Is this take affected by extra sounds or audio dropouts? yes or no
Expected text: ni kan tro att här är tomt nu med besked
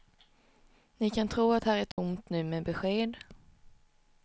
yes